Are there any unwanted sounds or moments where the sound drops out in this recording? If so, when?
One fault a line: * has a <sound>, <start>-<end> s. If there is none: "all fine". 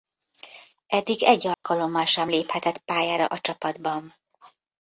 * has a dropout, 1.5-1.6 s